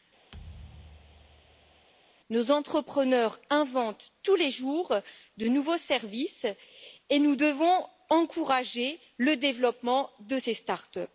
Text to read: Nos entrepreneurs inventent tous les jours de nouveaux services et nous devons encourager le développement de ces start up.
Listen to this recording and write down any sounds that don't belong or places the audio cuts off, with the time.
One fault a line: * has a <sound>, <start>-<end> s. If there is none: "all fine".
* has a thud, 0.3-1.9 s